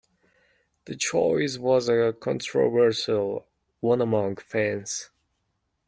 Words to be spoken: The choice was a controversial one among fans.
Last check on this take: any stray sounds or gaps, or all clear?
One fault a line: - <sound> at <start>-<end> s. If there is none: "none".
none